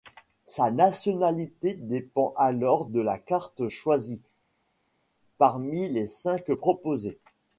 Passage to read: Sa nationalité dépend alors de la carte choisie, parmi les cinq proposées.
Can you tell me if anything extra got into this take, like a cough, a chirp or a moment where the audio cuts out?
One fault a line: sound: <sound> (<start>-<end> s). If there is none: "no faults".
no faults